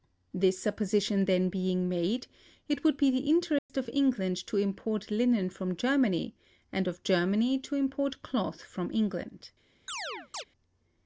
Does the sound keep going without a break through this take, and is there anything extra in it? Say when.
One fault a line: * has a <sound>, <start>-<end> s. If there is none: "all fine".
* has a dropout, 3.6-3.7 s
* has a chirp, 9.9-10.4 s